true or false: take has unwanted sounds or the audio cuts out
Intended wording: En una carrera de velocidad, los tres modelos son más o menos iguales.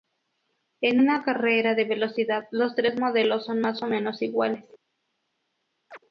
true